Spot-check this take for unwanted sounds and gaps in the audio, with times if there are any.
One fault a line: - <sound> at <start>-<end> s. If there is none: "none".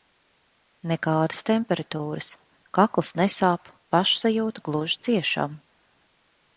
none